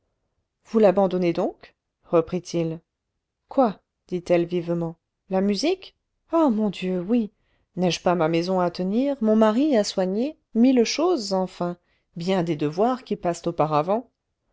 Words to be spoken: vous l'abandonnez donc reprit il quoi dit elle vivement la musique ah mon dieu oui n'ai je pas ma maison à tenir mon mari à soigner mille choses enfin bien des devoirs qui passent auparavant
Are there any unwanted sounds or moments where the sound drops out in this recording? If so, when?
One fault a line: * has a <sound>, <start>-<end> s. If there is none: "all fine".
all fine